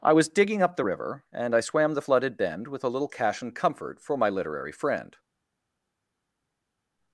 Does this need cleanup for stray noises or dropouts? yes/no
no